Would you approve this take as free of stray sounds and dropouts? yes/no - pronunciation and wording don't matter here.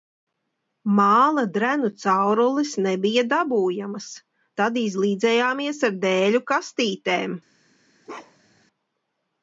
no